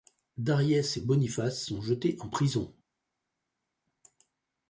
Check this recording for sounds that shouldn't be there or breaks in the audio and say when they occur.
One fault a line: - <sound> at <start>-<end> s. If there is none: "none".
none